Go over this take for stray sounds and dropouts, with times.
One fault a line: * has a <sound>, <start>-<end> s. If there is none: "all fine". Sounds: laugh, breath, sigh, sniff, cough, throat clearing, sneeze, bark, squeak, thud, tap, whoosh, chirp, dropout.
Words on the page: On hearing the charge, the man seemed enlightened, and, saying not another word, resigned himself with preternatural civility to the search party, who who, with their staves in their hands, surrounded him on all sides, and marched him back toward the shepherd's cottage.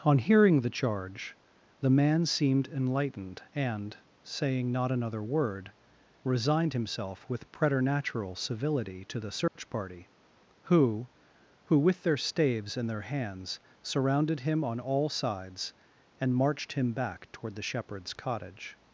* has a dropout, 9.5-9.6 s